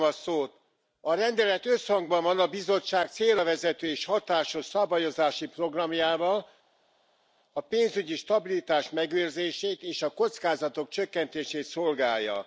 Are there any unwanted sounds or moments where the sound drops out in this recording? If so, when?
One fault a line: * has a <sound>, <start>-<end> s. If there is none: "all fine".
all fine